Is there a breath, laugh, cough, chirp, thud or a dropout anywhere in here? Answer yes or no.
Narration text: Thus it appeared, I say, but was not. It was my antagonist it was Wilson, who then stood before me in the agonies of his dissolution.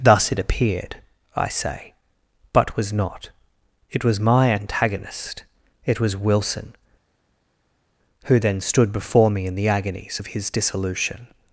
no